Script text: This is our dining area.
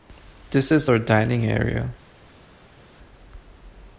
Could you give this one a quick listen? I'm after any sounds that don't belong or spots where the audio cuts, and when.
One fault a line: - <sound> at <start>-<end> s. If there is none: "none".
none